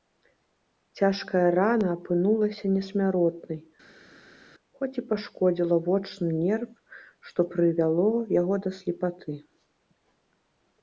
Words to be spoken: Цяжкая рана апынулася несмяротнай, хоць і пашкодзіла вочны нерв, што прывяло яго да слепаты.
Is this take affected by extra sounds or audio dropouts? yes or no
no